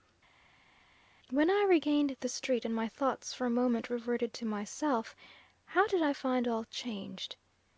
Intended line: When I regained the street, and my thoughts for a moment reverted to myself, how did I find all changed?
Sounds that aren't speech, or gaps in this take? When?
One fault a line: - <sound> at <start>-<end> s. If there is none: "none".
none